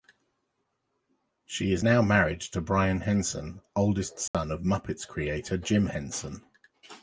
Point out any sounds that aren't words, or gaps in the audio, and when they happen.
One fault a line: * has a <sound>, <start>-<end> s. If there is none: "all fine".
* has a dropout, 4.3-4.3 s